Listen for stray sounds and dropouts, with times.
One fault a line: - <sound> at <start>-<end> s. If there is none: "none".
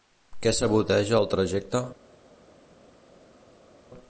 none